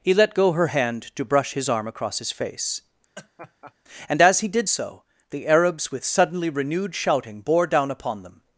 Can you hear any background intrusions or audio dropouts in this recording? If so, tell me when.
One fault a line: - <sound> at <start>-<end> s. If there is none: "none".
- laugh at 3.1-3.7 s